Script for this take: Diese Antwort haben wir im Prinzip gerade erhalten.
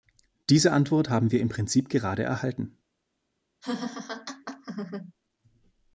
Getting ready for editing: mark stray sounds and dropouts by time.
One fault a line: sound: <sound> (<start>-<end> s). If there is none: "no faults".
sound: laugh (3.6-5.1 s)